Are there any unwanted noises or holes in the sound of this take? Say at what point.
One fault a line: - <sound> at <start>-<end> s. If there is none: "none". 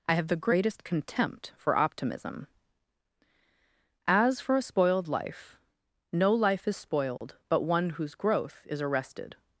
- dropout at 7.2-7.2 s